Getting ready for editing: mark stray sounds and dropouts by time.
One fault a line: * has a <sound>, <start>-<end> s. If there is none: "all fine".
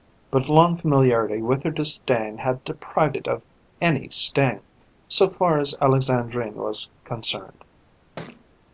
* has a thud, 8.2-8.5 s